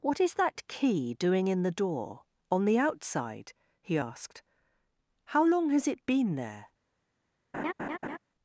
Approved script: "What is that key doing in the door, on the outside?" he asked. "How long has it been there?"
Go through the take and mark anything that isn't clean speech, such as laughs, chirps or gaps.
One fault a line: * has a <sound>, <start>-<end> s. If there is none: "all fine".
* has a laugh, 7.5-8.2 s